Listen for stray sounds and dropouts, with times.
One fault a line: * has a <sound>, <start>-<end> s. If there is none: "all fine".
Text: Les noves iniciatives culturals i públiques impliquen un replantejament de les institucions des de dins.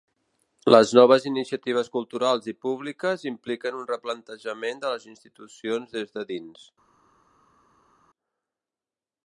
all fine